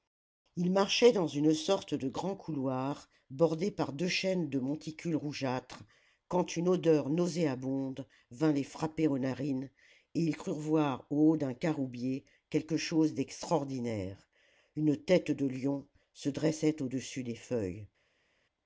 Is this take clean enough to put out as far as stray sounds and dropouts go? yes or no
yes